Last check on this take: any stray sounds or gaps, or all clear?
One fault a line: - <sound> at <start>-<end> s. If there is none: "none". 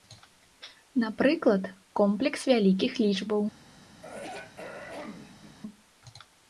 - throat clearing at 4.0-5.6 s